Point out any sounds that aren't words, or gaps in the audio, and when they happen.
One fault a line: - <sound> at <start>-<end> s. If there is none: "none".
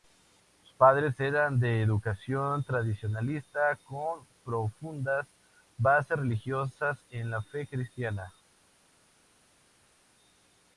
none